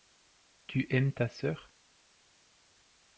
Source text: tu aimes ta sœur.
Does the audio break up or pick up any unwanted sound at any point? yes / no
no